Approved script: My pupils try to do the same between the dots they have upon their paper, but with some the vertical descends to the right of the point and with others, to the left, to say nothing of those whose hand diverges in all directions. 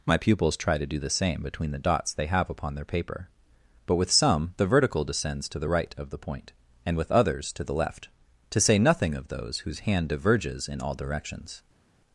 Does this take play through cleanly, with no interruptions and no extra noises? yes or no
yes